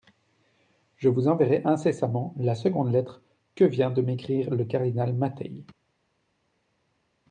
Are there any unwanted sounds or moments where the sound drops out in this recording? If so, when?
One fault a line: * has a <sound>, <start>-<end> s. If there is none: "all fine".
all fine